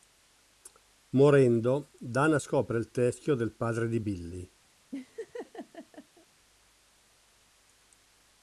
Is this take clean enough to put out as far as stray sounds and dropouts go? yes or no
no